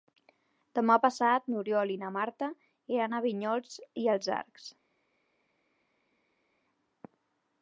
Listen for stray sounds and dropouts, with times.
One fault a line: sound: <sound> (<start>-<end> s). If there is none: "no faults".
no faults